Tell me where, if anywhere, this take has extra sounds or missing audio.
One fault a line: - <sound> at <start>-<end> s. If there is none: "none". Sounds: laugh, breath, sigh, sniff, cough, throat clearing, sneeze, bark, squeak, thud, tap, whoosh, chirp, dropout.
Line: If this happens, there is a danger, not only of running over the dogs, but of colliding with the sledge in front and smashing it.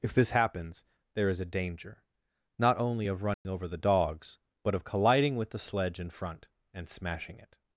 - dropout at 3.3-3.4 s